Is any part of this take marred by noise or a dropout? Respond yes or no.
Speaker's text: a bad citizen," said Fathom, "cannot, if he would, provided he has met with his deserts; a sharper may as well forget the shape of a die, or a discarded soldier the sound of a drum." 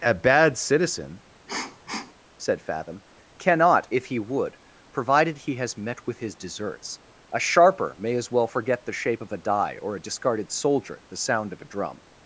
yes